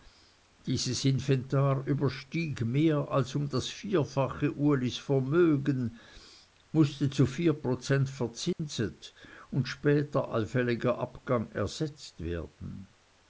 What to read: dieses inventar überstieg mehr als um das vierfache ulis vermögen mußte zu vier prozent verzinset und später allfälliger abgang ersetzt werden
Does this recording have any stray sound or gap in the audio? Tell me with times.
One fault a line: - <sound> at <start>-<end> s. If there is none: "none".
- dropout at 8.5-8.6 s